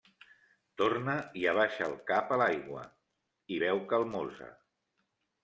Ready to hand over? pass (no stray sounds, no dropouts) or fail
pass